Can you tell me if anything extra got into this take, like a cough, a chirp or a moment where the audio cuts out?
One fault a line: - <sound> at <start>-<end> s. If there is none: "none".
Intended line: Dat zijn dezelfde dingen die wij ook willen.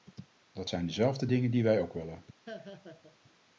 - laugh at 2.5-3.2 s